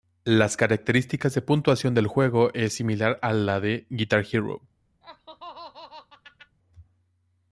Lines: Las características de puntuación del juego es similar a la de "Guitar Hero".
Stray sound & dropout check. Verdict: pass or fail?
fail